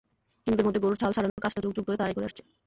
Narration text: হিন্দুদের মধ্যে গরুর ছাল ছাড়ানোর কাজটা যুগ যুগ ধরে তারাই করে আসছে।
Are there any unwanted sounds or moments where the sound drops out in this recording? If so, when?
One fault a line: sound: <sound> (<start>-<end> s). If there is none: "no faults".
sound: dropout (1.3-1.4 s)